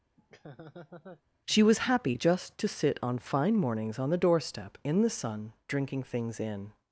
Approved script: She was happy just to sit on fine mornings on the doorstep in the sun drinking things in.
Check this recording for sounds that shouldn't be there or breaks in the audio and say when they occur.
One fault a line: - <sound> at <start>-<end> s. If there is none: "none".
- laugh at 0.2-1.2 s